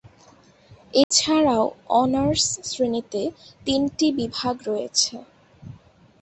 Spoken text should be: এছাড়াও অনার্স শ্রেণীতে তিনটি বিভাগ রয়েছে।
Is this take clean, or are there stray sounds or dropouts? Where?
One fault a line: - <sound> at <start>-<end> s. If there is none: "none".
- dropout at 1.0-1.1 s